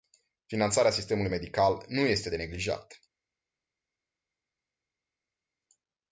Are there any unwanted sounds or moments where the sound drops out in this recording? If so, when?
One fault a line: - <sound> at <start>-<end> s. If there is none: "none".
none